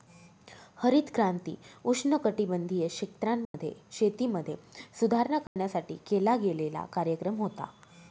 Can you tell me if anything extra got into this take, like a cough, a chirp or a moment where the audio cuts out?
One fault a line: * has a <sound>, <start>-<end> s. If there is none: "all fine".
* has a dropout, 3.4-3.5 s
* has a dropout, 5.5-5.6 s